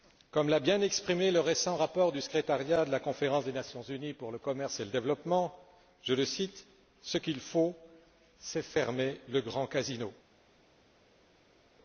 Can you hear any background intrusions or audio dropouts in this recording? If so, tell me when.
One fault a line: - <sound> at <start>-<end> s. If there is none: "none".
none